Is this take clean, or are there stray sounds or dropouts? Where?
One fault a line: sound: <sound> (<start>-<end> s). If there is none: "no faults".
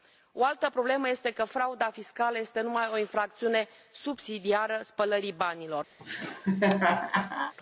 sound: laugh (6.0-7.5 s)